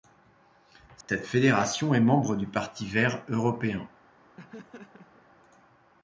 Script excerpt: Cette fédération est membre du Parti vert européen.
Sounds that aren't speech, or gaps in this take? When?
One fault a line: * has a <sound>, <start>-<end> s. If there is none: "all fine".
* has a dropout, 1.0-1.1 s
* has a laugh, 4.4-5.3 s